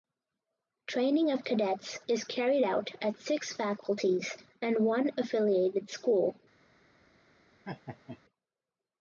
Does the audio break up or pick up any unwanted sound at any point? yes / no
yes